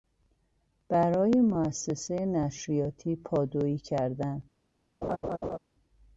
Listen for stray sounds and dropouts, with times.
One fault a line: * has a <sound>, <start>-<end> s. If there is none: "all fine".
* has a laugh, 5.0-5.6 s